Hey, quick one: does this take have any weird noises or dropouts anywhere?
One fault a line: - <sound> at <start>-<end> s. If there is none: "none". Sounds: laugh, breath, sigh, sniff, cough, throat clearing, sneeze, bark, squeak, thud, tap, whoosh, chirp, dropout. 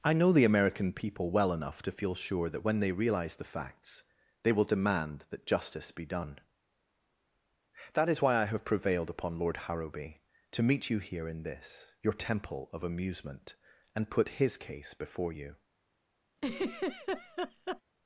- laugh at 16.4-17.8 s